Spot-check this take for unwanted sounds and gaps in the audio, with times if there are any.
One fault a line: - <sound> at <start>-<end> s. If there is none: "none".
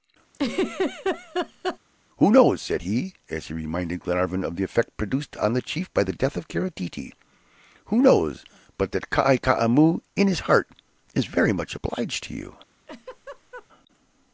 - laugh at 0.3-1.8 s
- laugh at 12.9-13.7 s